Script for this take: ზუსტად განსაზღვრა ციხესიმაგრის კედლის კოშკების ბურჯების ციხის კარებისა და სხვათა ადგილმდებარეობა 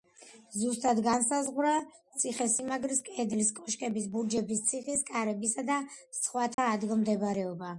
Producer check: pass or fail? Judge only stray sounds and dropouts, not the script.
fail